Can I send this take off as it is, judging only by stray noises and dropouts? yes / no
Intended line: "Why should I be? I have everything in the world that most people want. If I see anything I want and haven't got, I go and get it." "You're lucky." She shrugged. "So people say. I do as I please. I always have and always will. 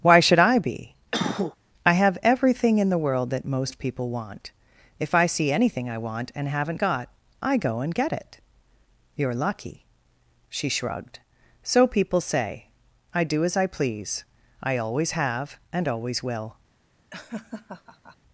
no